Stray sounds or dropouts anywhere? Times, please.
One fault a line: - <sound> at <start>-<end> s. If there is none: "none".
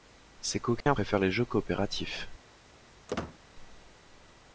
- dropout at 0.8-0.9 s
- squeak at 3.1-3.4 s